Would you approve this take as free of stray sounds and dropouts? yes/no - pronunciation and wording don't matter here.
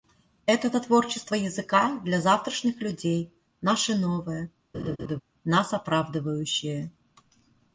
no